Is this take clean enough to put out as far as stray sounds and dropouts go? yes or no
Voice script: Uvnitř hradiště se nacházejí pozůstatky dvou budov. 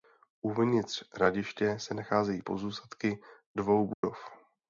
no